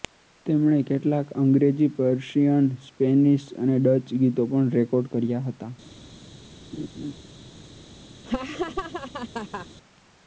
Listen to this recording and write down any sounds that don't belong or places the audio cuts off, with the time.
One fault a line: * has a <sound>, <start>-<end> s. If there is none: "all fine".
* has a laugh, 6.7-7.1 s
* has a laugh, 8.2-9.7 s